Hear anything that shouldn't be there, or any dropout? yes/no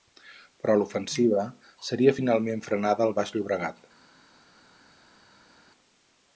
no